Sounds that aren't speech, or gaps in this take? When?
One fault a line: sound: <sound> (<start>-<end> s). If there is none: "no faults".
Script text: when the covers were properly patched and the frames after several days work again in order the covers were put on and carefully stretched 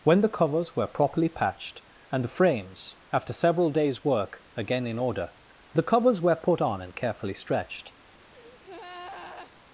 sound: breath (8.3-9.5 s)